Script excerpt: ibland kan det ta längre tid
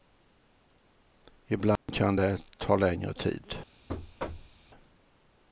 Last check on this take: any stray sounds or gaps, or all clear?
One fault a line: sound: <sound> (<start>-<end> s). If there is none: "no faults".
sound: dropout (1.8-1.9 s)
sound: thud (3.9-4.6 s)